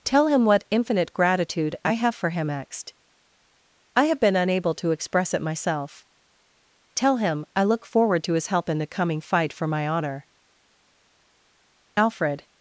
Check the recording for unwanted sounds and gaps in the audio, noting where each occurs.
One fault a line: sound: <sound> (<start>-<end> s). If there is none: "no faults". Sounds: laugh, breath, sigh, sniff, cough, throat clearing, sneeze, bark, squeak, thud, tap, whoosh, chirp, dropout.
no faults